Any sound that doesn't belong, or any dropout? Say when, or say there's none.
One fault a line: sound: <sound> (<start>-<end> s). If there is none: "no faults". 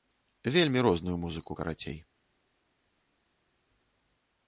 no faults